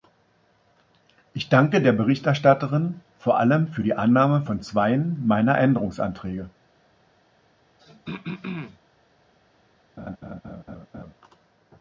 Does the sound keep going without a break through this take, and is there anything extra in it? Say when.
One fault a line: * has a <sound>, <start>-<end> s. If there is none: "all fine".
* has a throat clearing, 7.8-8.8 s
* has a laugh, 10.0-11.1 s